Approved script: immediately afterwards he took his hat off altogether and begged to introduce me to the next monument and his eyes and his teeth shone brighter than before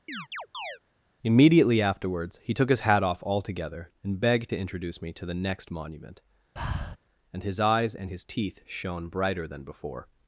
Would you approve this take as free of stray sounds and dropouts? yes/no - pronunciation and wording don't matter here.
no